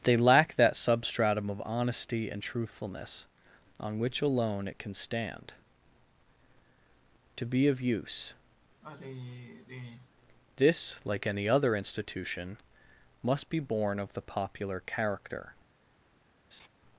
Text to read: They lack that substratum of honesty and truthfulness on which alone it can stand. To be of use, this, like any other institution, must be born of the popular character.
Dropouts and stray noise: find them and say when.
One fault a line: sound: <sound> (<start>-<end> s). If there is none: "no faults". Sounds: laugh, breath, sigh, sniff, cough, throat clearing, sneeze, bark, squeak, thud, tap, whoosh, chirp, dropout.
sound: sigh (8.8-10.1 s)
sound: laugh (16.5-16.7 s)